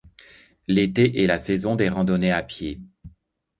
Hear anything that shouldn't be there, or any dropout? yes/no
no